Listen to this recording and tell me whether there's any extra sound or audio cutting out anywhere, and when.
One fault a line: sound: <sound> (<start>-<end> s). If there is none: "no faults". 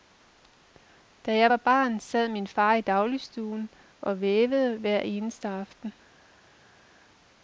no faults